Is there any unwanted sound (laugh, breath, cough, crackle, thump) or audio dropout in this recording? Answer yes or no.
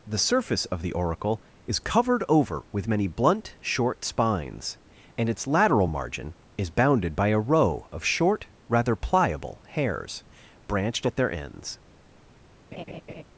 yes